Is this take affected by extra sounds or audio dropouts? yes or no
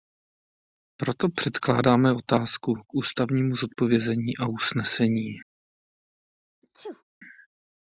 yes